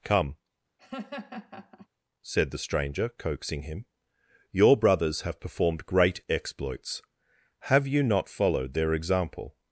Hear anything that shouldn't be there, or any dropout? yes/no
yes